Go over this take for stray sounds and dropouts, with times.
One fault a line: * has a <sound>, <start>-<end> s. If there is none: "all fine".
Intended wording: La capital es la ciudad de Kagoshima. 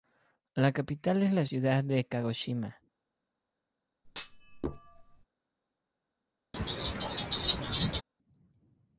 * has a thud, 4.0-5.2 s
* has a laugh, 6.5-8.0 s